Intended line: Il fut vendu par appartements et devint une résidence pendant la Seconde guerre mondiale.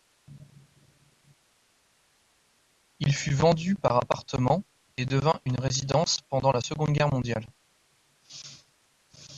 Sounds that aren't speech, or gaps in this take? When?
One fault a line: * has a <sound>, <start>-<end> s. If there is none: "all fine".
all fine